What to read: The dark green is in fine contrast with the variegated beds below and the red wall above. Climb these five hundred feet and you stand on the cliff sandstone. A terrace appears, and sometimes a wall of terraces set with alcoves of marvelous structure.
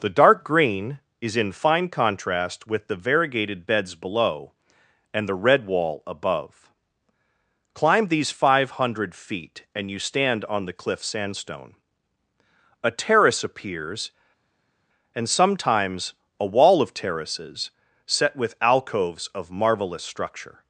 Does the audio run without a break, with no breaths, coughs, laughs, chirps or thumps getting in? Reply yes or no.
yes